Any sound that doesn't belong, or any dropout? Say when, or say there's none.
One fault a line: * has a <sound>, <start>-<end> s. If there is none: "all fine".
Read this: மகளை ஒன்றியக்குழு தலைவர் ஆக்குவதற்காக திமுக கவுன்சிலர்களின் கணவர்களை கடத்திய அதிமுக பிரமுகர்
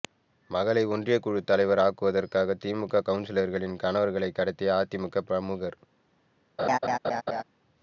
* has a laugh, 6.6-7.4 s